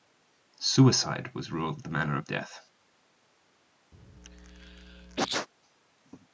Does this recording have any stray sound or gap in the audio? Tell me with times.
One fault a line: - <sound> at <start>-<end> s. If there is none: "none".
- sneeze at 3.9-5.5 s